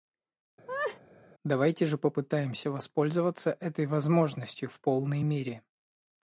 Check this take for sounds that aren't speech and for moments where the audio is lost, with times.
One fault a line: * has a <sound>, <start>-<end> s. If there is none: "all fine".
* has a laugh, 0.7-1.0 s